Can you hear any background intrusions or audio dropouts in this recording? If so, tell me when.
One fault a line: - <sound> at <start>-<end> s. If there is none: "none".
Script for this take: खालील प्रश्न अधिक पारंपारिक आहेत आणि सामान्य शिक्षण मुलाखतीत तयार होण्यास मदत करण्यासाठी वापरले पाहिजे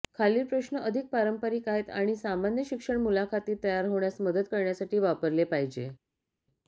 none